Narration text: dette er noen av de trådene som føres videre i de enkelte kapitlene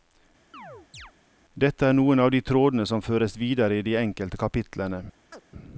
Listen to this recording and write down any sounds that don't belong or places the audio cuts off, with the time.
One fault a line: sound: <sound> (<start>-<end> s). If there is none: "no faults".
sound: chirp (0.5-1.1 s)
sound: chirp (5.3-5.4 s)